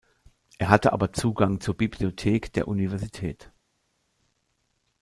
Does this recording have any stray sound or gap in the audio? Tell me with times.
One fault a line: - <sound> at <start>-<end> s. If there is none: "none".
none